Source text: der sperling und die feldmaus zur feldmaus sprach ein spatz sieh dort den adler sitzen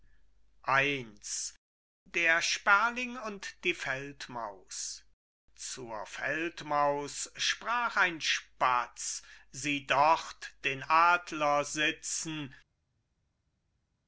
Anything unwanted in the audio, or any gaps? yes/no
no